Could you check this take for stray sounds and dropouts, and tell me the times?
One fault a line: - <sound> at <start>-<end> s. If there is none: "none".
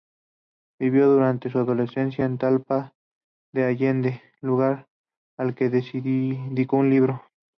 none